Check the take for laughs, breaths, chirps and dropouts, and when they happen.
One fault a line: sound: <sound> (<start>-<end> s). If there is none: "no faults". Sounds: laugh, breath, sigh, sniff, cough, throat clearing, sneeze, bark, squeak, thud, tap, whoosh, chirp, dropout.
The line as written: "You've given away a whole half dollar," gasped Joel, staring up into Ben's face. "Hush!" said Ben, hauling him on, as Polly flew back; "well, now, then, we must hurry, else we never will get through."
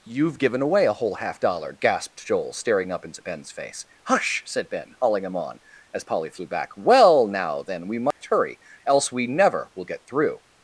sound: dropout (8.1-8.2 s)